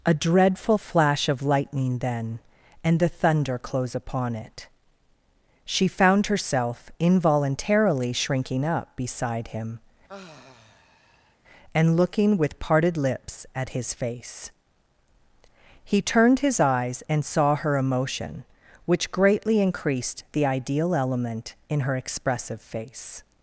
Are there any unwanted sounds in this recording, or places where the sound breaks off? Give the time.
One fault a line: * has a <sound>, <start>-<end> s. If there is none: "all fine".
* has a sigh, 10.1-11.4 s